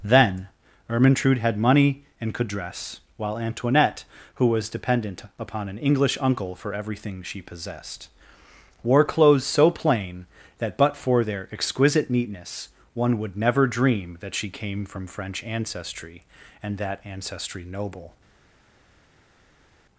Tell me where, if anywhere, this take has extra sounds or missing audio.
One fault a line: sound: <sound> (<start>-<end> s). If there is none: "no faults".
no faults